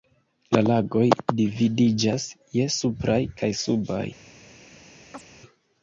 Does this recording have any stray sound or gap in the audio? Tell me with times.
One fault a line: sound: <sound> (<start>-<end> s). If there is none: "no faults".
sound: chirp (5.1-5.2 s)